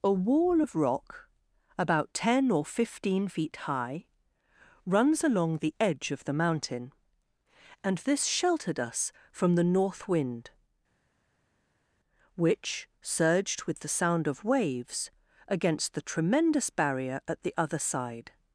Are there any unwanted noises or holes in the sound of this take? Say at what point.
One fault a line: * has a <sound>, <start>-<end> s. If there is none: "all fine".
all fine